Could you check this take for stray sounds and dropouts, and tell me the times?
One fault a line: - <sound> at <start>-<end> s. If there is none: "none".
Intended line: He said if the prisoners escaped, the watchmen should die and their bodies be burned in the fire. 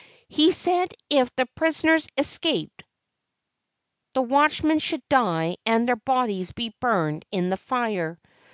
none